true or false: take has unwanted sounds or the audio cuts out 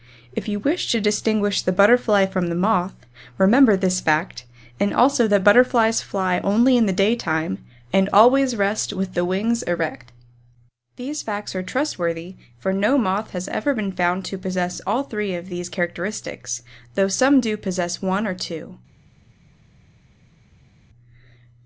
false